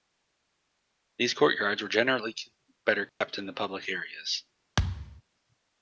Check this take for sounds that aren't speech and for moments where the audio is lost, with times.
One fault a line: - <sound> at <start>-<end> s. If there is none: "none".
- dropout at 3.1-3.2 s
- thud at 4.8-5.2 s